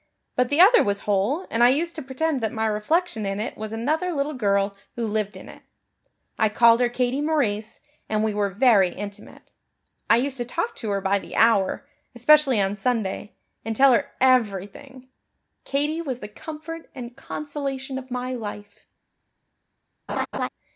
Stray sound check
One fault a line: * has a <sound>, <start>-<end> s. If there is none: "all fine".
* has a laugh, 20.1-20.5 s